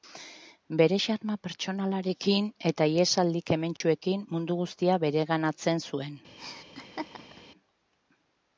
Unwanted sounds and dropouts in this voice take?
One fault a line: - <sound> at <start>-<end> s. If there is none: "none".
- dropout at 3.8-3.8 s
- laugh at 6.4-7.4 s